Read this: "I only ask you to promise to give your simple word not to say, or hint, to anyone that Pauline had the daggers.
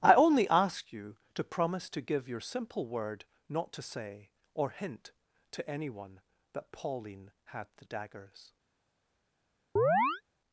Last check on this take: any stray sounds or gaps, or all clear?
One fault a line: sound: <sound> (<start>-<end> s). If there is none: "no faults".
sound: chirp (9.8-10.2 s)